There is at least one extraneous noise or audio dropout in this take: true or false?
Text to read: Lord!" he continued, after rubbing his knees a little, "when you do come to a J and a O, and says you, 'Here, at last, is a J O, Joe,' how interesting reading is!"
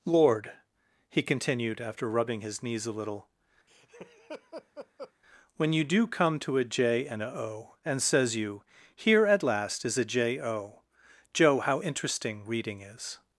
true